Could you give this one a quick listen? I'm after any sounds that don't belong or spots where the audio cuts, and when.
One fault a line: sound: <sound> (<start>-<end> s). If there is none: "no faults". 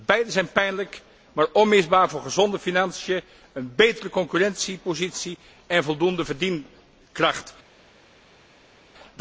no faults